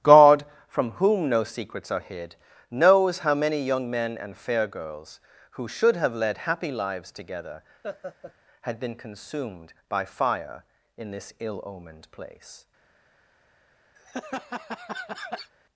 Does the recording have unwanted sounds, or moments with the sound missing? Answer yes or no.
yes